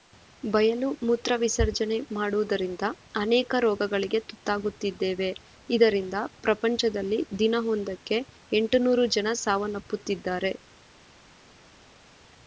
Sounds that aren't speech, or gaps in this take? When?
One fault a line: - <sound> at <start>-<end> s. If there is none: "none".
none